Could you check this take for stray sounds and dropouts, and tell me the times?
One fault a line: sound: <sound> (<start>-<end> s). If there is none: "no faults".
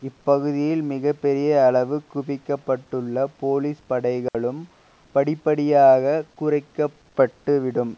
sound: dropout (4.3-4.3 s)